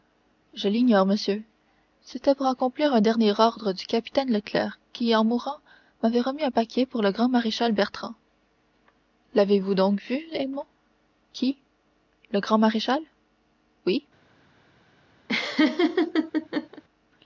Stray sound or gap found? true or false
true